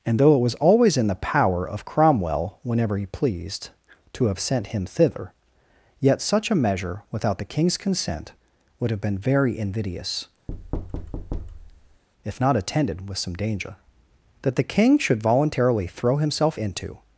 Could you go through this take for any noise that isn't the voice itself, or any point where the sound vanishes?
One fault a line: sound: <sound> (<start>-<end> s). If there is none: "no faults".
sound: thud (10.5-12.0 s)